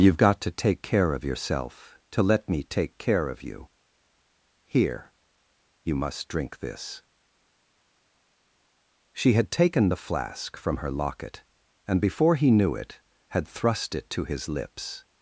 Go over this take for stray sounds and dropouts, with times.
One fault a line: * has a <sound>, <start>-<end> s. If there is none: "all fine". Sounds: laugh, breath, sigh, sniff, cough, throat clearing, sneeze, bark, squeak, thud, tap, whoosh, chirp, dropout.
all fine